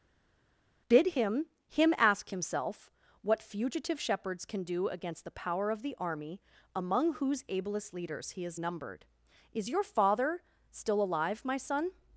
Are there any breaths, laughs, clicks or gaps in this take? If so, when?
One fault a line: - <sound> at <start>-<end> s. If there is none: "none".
none